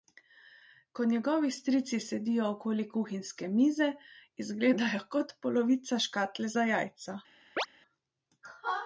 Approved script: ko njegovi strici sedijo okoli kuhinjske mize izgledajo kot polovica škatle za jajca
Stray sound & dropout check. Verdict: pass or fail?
fail